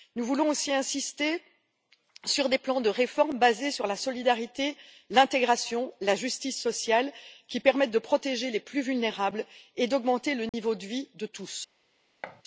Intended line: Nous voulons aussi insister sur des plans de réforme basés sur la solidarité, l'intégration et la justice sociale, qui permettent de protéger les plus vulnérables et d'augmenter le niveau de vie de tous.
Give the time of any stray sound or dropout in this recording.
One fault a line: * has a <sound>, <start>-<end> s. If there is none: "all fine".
* has a dropout, 10.5-10.5 s
* has a thud, 12.2-12.4 s